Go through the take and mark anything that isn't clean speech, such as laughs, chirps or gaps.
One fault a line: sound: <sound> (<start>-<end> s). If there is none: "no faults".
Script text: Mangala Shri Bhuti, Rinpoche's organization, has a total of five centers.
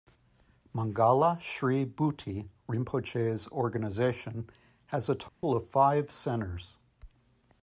sound: dropout (5.3-5.4 s)